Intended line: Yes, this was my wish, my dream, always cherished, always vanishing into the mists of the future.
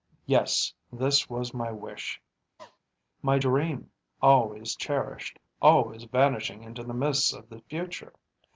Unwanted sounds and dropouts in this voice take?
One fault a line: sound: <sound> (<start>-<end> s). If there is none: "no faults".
sound: cough (2.6-2.8 s)